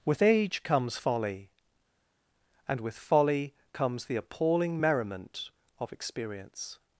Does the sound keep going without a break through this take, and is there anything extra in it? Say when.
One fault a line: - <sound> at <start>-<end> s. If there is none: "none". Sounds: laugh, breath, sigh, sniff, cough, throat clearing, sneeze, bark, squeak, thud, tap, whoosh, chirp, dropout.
none